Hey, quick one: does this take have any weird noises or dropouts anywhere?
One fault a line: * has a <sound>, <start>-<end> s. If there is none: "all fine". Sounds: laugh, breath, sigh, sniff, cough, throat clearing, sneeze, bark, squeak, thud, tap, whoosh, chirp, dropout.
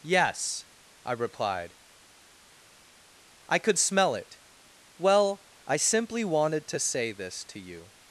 all fine